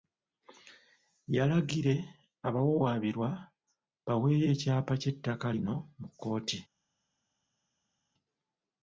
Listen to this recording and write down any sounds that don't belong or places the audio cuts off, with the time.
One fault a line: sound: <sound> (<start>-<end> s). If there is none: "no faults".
no faults